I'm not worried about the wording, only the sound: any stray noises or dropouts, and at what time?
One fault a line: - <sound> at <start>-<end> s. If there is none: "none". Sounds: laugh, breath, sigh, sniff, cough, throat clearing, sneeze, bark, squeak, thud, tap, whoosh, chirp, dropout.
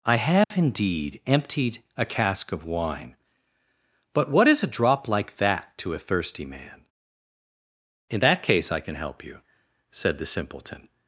- dropout at 0.4-0.5 s